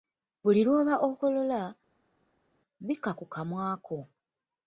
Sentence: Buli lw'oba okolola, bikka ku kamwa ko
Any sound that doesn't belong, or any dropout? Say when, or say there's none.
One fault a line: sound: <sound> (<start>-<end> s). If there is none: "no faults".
no faults